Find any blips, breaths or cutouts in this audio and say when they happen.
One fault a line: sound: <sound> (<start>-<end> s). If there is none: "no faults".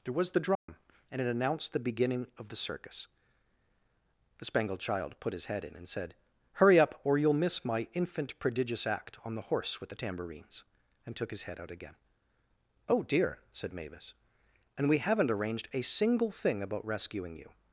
sound: dropout (0.5-0.7 s)